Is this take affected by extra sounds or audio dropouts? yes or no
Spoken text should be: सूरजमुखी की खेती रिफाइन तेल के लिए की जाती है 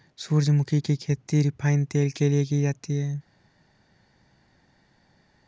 no